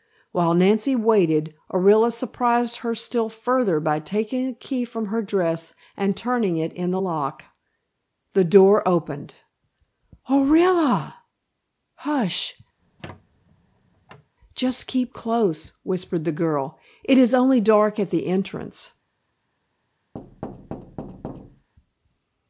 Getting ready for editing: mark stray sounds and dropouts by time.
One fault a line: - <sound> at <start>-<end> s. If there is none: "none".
- squeak at 12.8-14.3 s
- thud at 20.1-21.7 s